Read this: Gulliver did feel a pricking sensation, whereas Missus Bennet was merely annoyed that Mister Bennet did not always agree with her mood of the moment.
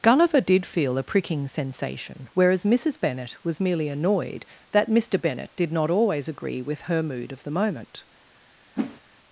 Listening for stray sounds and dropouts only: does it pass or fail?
fail